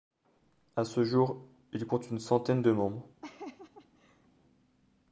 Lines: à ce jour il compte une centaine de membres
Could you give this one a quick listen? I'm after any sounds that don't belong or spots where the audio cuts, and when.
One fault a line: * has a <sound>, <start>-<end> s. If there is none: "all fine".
* has a laugh, 3.2-4.3 s